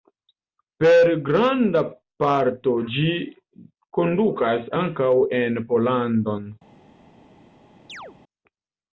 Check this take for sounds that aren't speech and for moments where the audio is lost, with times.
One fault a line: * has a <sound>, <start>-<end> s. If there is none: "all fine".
* has a chirp, 7.9-8.2 s